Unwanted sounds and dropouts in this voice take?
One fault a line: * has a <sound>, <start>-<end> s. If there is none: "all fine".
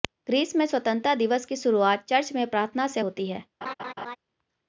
* has a laugh, 3.6-4.2 s